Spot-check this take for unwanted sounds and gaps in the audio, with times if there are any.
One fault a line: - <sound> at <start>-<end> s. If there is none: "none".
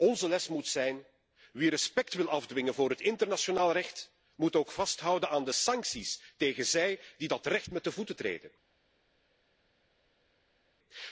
none